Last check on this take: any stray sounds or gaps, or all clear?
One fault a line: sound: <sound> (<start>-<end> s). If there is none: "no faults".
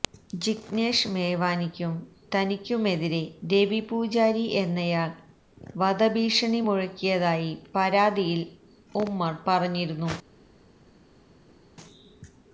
no faults